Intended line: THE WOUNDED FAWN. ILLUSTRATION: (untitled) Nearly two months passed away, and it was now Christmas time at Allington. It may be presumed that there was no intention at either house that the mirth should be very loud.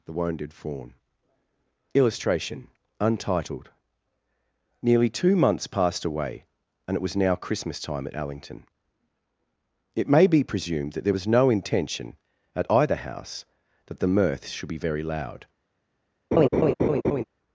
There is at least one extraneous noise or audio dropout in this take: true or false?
true